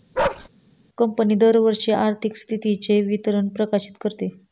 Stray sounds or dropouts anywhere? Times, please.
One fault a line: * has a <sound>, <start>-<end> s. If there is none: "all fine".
* has a bark, 0.1-0.5 s